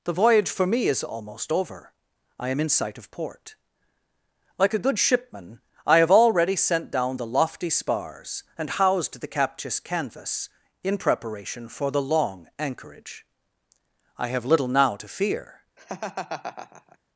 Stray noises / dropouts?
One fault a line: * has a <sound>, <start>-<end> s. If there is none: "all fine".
* has a laugh, 15.8-17.0 s